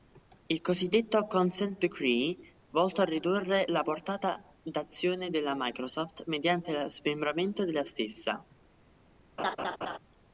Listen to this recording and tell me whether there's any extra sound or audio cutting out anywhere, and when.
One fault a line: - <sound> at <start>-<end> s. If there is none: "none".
- laugh at 9.4-10.0 s